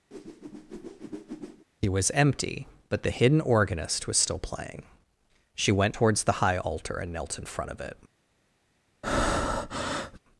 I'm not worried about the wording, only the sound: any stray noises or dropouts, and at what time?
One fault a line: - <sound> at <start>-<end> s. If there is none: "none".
- whoosh at 0.1-1.7 s
- breath at 9.0-10.2 s